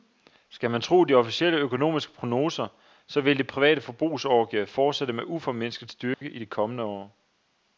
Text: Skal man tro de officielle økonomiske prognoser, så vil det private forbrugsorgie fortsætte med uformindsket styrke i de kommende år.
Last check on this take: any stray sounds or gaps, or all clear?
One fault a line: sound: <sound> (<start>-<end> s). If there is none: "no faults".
sound: dropout (6.1-6.2 s)